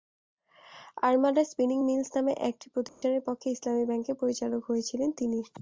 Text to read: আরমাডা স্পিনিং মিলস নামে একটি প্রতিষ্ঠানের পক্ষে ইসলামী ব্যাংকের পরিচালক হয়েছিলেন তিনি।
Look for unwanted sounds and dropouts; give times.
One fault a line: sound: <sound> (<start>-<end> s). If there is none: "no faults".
sound: dropout (2.9-3.0 s)